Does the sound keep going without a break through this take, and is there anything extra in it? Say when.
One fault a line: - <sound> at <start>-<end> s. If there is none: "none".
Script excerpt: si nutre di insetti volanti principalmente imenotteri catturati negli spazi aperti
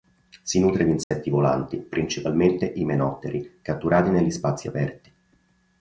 - dropout at 1.0-1.1 s